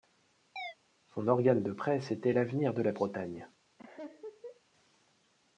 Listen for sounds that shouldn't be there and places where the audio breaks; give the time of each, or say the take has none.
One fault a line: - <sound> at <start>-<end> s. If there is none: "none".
- chirp at 0.6-0.8 s
- laugh at 3.8-4.6 s